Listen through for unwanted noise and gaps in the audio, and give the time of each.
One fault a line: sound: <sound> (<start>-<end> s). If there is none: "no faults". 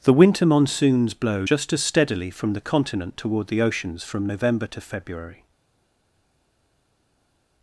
no faults